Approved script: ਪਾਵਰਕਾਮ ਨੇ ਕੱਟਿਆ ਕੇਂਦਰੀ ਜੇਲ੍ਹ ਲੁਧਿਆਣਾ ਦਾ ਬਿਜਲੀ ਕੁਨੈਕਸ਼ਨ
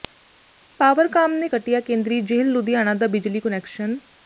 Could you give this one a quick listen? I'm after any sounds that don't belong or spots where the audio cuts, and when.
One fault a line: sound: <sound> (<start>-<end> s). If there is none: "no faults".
no faults